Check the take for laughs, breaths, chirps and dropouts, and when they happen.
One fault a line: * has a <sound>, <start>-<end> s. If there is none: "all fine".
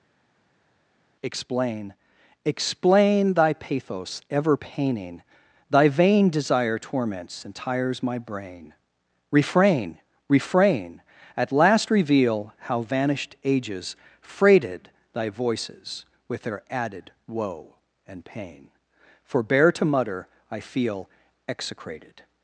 all fine